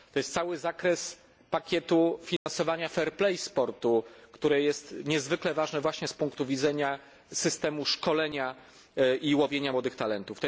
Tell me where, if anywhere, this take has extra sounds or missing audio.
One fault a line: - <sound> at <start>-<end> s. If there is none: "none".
- dropout at 2.4-2.5 s